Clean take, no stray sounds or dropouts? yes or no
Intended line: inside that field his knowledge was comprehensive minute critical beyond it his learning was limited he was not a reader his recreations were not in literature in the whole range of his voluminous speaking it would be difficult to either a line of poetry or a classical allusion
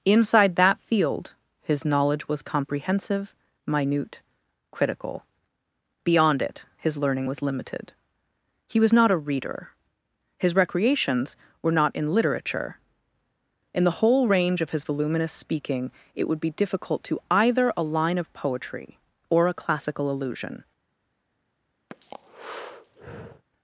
no